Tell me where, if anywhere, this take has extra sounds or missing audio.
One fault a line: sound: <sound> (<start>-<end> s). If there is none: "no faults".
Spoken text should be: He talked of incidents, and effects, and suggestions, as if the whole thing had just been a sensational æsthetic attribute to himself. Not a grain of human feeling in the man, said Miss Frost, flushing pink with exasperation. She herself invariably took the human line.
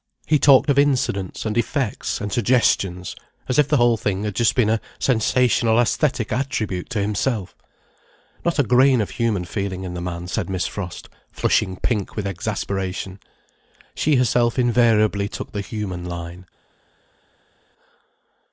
no faults